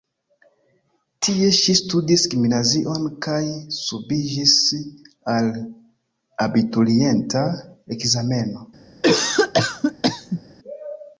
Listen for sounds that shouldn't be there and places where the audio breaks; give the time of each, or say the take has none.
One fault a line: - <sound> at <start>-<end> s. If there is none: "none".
- cough at 9.0-10.4 s